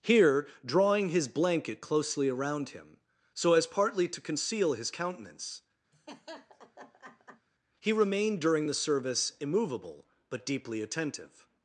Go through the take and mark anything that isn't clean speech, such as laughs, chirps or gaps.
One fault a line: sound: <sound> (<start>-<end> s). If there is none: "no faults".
sound: laugh (5.9-7.5 s)